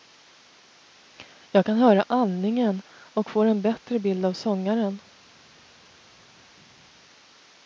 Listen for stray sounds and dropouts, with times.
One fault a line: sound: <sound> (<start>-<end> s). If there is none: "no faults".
no faults